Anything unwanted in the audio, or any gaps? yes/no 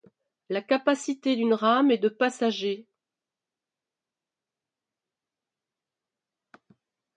no